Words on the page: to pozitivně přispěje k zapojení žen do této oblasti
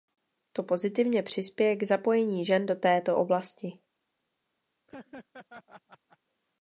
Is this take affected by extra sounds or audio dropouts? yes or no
yes